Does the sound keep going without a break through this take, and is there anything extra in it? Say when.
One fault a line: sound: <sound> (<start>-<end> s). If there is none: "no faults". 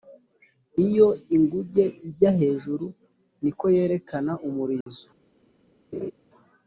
sound: dropout (4.8-4.9 s)
sound: laugh (5.9-6.1 s)